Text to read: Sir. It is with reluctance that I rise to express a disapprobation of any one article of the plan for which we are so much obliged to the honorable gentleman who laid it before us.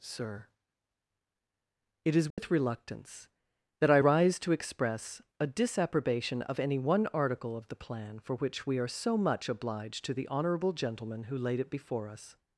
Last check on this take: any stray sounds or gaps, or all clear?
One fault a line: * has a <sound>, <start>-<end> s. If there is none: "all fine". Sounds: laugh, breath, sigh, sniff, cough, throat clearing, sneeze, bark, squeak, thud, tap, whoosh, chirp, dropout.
* has a dropout, 2.3-2.4 s